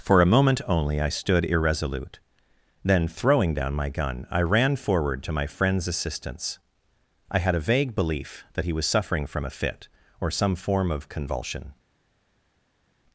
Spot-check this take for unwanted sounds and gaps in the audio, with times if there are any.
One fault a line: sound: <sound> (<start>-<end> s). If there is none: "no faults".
no faults